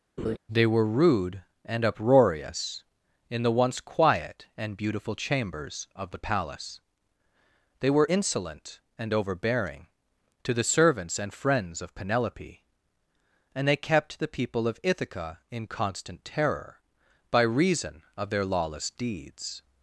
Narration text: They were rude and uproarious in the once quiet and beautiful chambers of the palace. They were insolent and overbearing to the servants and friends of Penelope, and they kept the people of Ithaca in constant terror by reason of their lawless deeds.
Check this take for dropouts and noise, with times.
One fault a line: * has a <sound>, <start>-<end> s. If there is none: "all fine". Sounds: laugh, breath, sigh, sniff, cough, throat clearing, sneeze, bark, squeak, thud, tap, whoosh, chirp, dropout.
* has a laugh, 0.2-0.4 s